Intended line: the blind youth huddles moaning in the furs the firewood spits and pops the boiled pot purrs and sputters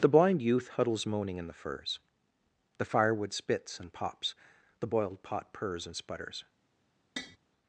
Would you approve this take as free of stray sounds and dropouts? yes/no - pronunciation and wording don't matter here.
no